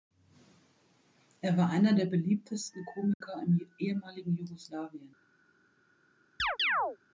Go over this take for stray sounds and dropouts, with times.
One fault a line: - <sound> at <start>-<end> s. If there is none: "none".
- dropout at 3.1-3.2 s
- chirp at 6.4-7.0 s